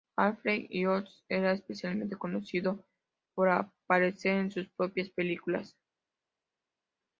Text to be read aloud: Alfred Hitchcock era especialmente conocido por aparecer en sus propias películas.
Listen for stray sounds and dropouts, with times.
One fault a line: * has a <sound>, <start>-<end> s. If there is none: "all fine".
all fine